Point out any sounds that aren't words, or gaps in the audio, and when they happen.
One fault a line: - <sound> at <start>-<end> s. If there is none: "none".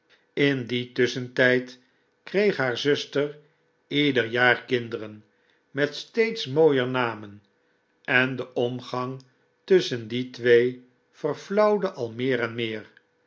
none